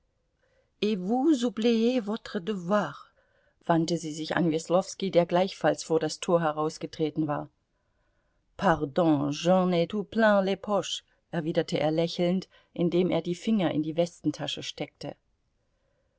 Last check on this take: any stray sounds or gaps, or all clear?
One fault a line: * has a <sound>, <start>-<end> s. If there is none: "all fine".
all fine